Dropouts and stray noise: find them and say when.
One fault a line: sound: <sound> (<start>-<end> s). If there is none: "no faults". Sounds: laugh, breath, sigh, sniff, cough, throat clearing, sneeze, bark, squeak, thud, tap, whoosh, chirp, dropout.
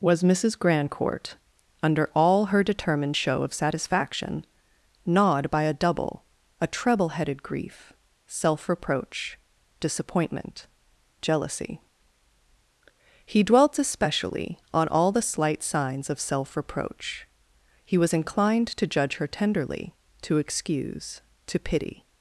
no faults